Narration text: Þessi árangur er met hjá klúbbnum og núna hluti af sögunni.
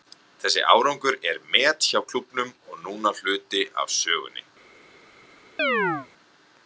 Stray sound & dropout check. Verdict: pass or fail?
fail